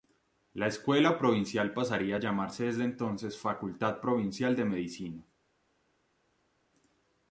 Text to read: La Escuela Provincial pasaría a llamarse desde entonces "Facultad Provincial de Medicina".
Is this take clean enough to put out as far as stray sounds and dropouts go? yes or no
yes